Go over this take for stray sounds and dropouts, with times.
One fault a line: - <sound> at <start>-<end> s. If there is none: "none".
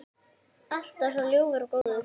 - dropout at 1.8-1.9 s